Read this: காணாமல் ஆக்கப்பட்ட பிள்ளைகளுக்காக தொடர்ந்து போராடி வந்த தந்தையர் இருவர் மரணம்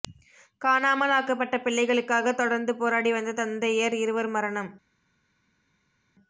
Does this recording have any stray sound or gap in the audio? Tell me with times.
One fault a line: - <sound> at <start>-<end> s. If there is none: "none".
none